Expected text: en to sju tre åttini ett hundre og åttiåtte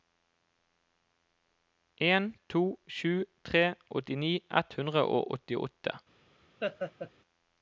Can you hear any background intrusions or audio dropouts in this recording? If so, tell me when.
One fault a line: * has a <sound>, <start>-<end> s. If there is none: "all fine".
* has a laugh, 6.6-7.1 s